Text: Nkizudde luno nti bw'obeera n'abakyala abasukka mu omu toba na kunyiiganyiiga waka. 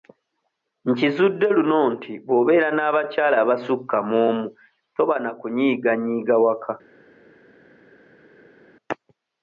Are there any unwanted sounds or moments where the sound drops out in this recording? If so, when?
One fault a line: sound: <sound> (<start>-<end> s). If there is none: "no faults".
no faults